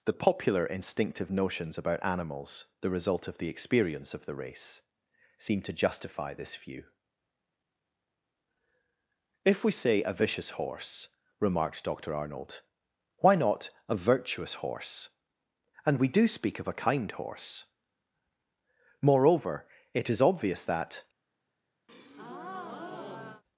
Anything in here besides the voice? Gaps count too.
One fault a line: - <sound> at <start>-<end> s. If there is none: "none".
- breath at 21.9-23.4 s